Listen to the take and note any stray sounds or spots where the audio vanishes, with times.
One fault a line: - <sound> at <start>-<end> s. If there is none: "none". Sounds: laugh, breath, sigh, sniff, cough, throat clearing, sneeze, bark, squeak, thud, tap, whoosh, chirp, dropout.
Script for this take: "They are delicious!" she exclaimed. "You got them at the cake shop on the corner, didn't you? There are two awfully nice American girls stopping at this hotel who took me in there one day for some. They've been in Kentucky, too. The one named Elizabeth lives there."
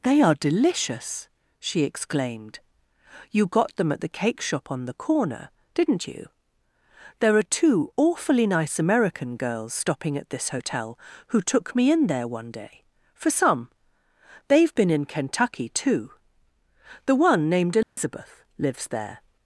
- dropout at 17.8-18.0 s